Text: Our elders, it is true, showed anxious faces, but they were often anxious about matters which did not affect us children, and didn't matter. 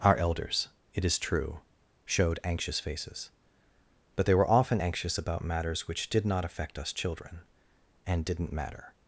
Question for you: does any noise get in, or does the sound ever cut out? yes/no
no